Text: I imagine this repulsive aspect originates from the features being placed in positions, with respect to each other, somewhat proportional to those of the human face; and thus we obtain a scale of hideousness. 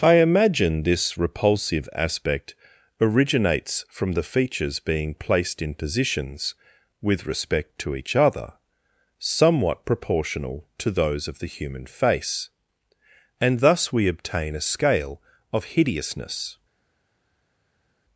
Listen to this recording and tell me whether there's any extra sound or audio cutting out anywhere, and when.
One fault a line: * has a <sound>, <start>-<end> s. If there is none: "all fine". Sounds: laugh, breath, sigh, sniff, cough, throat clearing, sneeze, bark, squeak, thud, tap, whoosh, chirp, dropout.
all fine